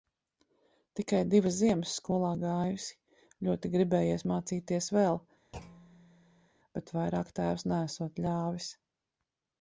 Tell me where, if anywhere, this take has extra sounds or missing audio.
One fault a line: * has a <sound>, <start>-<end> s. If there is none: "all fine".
* has a thud, 5.5-6.5 s